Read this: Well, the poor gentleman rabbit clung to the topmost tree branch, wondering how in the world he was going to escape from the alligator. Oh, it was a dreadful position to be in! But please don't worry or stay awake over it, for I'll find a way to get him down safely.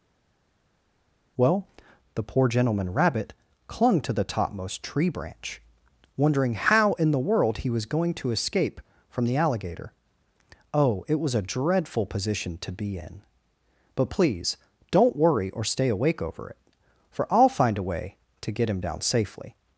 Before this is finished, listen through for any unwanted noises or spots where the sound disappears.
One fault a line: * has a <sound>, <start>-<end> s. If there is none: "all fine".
all fine